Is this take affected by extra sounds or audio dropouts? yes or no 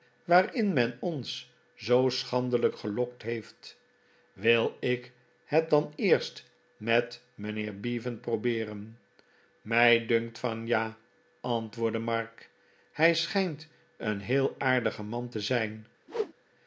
yes